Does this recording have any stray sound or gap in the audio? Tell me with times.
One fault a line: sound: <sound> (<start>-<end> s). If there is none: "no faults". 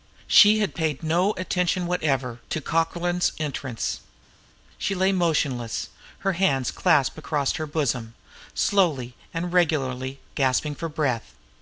no faults